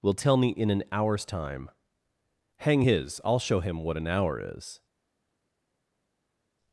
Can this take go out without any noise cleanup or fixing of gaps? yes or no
yes